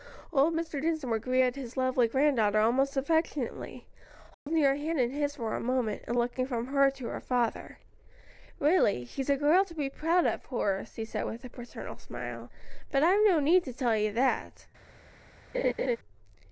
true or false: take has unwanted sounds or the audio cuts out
true